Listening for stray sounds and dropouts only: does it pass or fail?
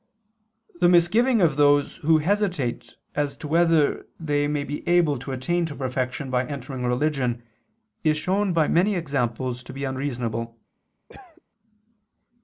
fail